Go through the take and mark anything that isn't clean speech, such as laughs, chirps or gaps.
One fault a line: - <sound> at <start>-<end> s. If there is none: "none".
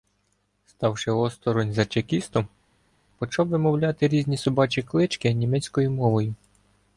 none